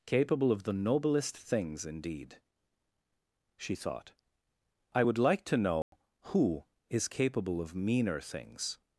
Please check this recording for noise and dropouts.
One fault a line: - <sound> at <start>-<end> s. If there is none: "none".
- dropout at 5.8-5.9 s